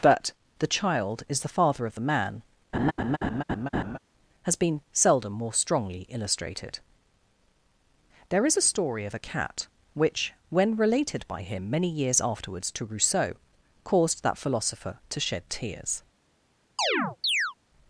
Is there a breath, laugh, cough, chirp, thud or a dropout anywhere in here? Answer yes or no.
yes